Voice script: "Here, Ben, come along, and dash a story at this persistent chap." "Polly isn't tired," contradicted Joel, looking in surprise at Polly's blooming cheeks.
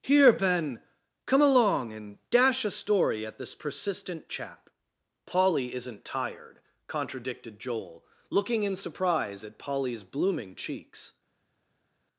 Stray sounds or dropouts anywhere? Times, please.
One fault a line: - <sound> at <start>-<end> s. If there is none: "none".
none